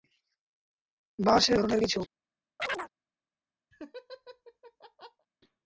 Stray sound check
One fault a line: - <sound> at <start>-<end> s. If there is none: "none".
- chirp at 2.6-2.9 s
- laugh at 3.7-5.3 s